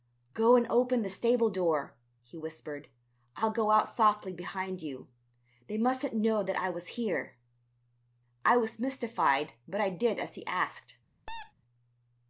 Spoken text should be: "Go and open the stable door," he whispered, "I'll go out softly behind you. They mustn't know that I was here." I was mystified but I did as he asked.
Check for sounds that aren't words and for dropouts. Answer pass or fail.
fail